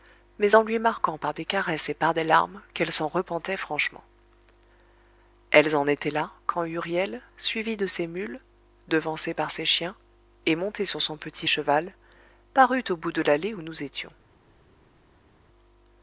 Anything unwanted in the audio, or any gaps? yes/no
no